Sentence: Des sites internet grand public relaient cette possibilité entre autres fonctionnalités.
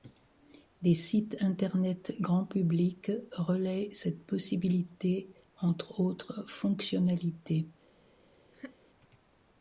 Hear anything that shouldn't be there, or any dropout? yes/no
yes